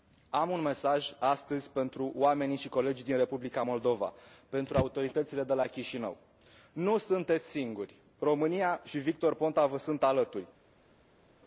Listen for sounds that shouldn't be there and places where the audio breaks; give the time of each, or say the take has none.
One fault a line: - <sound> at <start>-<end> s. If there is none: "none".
none